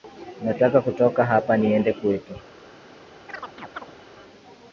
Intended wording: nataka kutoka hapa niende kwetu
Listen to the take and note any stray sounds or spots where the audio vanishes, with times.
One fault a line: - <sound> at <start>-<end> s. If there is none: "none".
- chirp at 3.3-4.0 s